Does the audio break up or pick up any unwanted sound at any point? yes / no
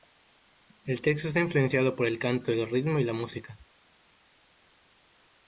no